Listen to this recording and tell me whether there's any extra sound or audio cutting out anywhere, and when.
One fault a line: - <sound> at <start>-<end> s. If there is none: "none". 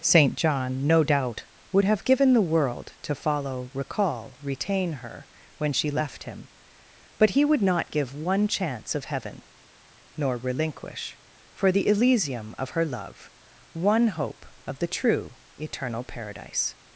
none